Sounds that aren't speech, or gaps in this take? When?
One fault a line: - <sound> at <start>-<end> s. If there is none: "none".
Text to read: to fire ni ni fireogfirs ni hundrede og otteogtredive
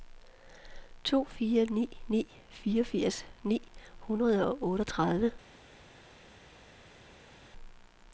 none